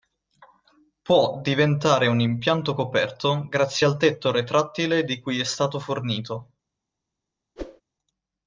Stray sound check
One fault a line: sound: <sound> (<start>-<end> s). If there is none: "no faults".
sound: whoosh (7.6-7.8 s)